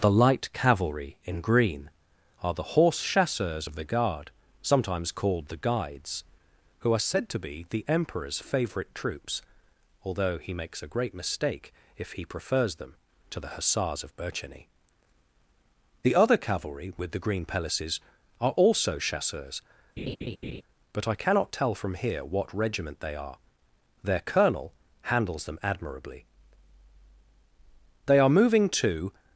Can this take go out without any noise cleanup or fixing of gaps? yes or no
no